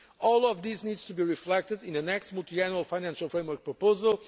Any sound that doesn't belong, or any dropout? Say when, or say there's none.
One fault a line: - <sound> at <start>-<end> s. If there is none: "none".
none